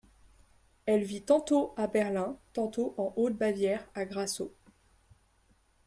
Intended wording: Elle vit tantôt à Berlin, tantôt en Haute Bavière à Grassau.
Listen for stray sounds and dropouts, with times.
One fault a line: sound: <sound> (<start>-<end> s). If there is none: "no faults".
no faults